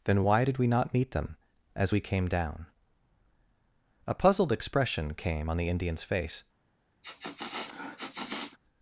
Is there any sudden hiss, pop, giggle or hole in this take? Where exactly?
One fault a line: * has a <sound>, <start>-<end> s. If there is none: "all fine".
* has a sniff, 7.0-8.6 s